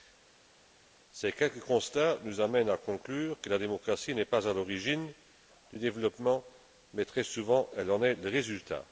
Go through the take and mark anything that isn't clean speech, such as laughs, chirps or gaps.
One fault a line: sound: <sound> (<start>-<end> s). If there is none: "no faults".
no faults